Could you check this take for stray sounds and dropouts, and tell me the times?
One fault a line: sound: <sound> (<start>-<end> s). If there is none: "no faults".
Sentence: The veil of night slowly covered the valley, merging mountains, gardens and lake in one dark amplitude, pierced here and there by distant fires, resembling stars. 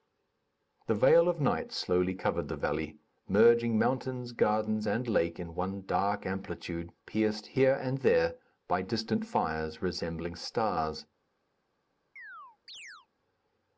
sound: chirp (12.2-13.1 s)